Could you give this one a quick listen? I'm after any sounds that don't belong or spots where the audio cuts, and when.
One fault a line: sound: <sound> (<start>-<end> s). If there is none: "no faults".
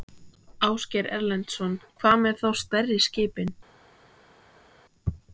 no faults